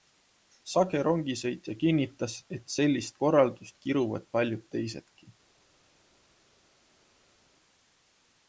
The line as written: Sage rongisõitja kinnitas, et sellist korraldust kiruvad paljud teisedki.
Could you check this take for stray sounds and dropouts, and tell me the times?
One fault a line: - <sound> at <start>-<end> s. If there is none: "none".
none